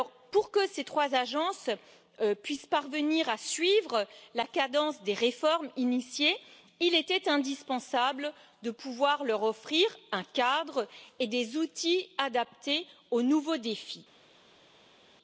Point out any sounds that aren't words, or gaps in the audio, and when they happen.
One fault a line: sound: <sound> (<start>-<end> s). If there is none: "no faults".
no faults